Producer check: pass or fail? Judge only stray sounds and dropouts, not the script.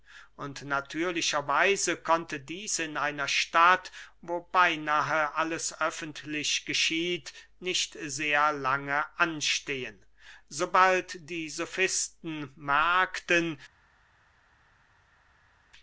pass